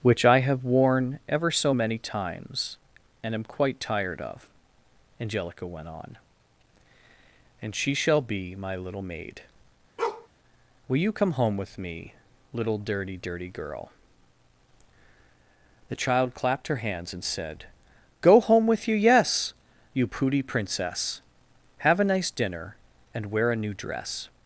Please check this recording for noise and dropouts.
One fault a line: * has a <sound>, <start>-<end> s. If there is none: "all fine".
* has a bark, 10.0-10.3 s